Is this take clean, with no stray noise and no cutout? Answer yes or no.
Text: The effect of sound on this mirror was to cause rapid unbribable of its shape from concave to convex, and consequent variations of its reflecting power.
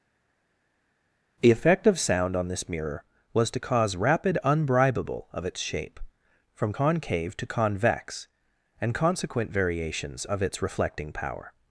yes